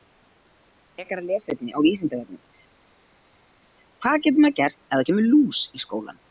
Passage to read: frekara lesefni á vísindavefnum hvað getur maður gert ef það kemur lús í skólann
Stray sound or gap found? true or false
false